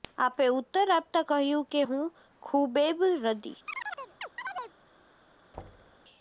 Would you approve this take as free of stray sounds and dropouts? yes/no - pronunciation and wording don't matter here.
no